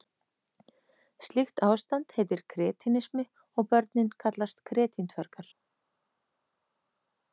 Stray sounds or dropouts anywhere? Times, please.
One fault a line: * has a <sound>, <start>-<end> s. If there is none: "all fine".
all fine